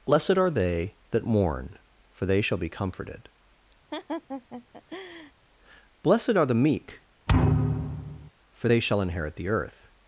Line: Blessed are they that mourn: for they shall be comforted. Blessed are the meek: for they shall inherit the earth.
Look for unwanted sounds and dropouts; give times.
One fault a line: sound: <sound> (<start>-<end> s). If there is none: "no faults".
sound: laugh (3.9-5.3 s)
sound: thud (7.3-8.3 s)